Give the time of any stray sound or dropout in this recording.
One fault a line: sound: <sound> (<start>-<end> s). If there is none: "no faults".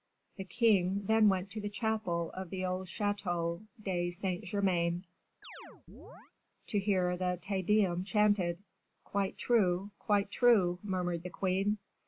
sound: chirp (5.4-6.3 s)